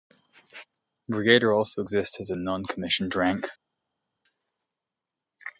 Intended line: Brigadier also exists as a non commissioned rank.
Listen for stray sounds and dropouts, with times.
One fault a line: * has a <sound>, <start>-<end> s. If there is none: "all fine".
all fine